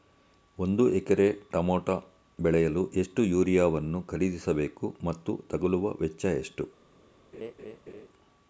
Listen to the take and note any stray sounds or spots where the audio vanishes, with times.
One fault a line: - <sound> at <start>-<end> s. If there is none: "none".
- laugh at 7.3-8.1 s